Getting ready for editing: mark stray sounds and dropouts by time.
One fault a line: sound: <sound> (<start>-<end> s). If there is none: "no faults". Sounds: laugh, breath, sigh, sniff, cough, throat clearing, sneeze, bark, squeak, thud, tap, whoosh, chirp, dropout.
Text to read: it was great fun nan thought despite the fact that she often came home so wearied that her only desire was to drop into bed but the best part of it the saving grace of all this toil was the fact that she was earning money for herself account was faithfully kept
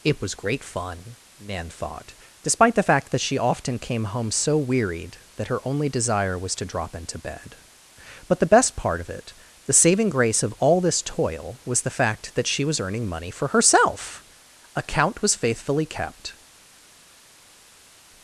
no faults